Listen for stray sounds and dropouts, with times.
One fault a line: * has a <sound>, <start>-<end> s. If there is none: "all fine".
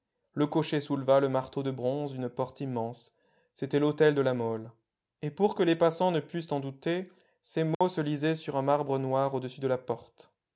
* has a dropout, 7.7-7.8 s